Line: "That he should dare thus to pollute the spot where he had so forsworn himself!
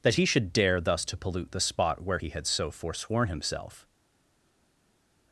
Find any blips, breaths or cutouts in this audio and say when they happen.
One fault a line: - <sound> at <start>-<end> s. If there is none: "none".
none